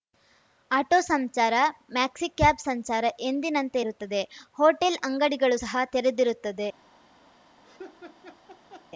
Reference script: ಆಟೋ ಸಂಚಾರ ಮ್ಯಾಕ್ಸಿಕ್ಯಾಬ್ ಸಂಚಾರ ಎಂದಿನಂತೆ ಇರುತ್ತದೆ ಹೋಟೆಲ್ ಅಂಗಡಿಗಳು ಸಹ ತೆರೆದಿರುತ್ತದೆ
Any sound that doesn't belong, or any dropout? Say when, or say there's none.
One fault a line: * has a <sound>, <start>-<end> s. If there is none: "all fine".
* has a laugh, 7.6-8.9 s